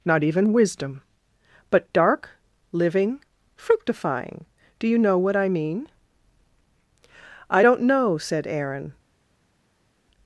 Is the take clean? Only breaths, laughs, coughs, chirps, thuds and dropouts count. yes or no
yes